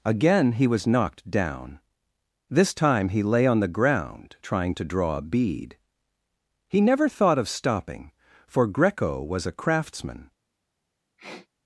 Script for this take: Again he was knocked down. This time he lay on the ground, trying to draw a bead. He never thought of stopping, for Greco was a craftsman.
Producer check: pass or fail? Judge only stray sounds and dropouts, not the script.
fail